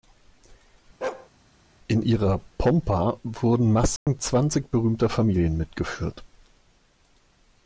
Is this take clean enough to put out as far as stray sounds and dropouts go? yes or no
no